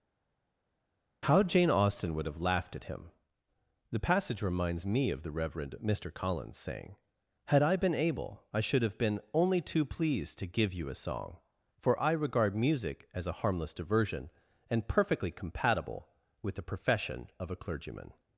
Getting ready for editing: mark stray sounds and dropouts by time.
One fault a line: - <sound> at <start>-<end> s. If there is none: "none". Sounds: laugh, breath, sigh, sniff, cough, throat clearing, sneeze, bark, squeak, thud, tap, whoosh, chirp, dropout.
none